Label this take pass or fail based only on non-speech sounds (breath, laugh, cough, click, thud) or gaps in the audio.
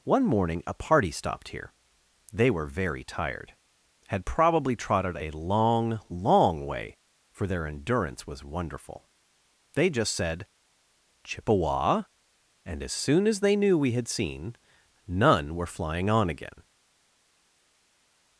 pass